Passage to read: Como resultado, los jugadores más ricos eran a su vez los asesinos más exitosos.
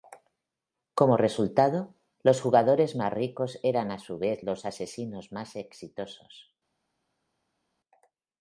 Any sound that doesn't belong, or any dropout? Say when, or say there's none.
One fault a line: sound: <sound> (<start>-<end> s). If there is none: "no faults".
no faults